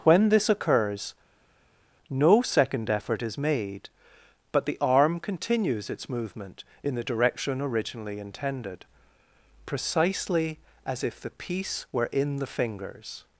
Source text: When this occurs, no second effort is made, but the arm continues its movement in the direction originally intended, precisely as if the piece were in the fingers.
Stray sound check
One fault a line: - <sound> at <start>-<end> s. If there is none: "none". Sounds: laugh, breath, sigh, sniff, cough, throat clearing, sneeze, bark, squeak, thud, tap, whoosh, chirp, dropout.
none